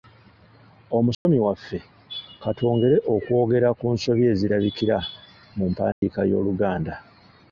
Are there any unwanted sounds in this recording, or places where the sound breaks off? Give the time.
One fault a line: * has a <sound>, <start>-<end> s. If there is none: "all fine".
* has a dropout, 1.1-1.3 s
* has a dropout, 5.9-6.0 s